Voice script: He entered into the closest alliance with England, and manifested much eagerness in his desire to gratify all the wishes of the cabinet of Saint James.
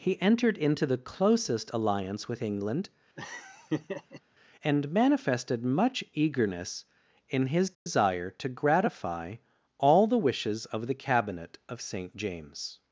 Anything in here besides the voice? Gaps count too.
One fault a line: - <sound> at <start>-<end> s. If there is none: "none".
- laugh at 3.2-4.2 s
- dropout at 7.7-7.9 s